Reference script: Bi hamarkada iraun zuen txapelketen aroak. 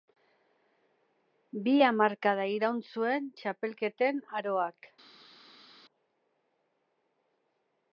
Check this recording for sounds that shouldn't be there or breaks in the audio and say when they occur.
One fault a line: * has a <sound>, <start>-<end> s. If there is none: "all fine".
all fine